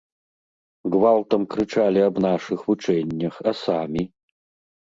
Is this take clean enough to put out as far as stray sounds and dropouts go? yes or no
yes